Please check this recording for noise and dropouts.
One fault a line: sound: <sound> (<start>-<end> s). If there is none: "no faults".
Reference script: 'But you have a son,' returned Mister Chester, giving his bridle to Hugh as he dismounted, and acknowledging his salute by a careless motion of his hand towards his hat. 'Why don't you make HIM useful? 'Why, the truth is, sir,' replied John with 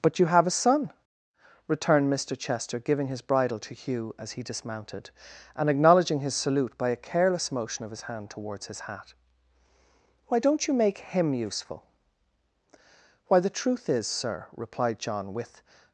no faults